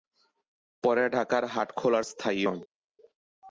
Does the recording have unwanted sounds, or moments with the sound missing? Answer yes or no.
no